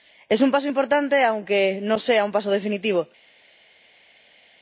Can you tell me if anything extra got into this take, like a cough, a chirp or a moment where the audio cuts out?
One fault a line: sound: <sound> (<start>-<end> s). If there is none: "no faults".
no faults